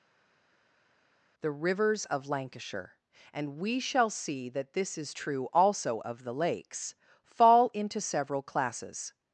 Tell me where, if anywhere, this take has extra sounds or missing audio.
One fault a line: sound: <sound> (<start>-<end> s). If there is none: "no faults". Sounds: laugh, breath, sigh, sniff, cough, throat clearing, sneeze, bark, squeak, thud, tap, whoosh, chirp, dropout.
no faults